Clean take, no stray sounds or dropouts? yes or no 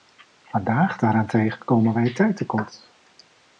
yes